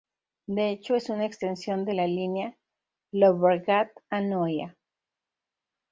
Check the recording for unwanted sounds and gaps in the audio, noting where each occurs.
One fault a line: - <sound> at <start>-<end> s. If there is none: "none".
none